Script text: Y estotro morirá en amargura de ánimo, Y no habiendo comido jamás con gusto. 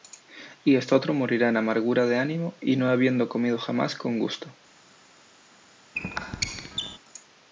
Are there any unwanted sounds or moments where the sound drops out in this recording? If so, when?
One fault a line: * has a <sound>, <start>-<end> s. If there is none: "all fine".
* has a squeak, 6.0-7.0 s